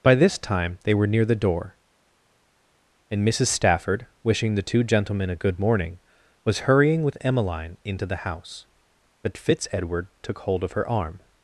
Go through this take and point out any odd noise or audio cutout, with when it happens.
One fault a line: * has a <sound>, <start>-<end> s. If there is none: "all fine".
all fine